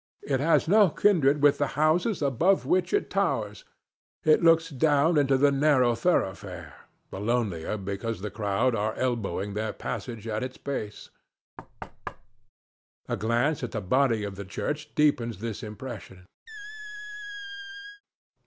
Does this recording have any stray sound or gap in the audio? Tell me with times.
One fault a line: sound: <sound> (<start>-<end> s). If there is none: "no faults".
sound: thud (11.6-12.5 s)
sound: squeak (16.5-18.0 s)